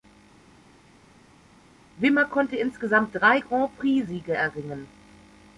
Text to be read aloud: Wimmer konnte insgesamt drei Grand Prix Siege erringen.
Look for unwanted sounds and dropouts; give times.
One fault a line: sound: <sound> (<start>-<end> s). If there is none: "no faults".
no faults